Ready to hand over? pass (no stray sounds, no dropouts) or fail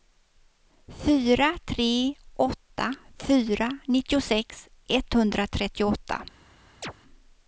fail